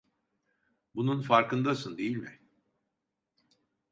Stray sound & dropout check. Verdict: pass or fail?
pass